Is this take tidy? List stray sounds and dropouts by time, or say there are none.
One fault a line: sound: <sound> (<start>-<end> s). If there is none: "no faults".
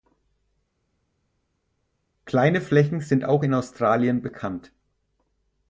no faults